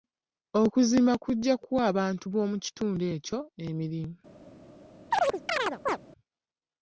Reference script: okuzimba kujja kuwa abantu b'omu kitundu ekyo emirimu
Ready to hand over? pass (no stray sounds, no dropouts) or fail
fail